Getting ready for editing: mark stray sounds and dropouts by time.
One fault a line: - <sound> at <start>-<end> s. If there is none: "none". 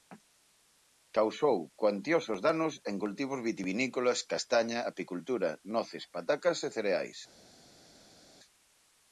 none